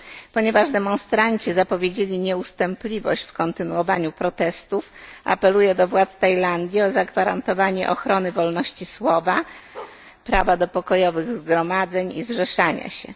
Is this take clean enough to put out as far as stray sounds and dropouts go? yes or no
no